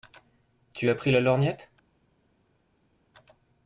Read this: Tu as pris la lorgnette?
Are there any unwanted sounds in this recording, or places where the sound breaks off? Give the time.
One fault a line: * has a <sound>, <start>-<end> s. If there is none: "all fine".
all fine